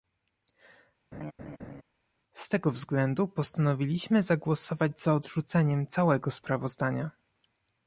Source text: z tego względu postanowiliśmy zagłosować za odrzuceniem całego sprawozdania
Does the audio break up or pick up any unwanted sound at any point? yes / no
yes